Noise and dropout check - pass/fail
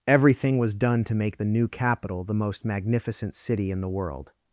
pass